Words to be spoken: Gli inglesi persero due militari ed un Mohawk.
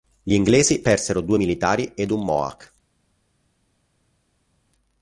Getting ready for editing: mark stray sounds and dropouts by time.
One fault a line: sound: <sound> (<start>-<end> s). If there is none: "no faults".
no faults